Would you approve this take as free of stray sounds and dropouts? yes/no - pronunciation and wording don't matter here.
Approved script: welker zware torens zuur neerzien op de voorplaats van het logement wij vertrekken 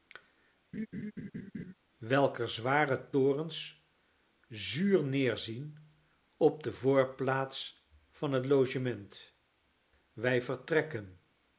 no